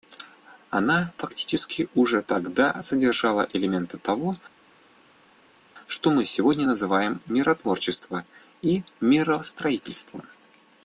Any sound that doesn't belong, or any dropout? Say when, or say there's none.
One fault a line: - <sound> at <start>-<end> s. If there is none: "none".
none